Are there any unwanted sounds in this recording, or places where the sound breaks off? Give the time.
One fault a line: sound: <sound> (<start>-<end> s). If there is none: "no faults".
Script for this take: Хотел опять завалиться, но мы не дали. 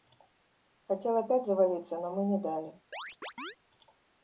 sound: chirp (2.9-3.6 s)